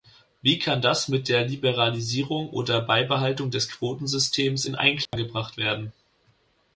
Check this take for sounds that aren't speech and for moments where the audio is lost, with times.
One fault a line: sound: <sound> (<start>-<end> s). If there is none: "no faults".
sound: dropout (5.1-5.1 s)